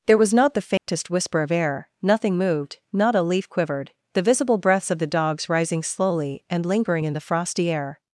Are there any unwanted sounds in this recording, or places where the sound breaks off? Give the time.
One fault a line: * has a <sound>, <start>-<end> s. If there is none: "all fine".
* has a dropout, 0.8-0.9 s